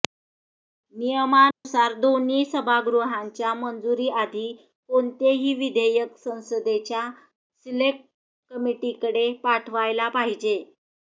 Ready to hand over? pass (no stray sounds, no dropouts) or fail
fail